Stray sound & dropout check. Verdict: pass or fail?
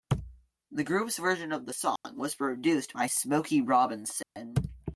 fail